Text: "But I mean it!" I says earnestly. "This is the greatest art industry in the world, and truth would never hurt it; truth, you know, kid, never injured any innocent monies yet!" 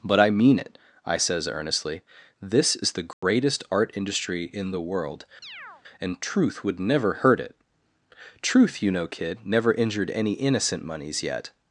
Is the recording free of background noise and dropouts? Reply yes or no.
no